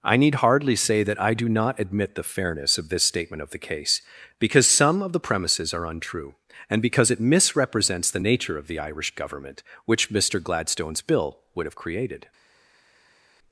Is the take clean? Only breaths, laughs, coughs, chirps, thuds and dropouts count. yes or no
yes